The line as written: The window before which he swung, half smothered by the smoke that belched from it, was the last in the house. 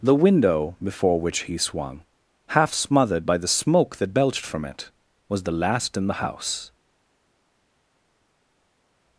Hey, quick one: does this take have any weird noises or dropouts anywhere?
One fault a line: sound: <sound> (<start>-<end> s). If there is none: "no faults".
no faults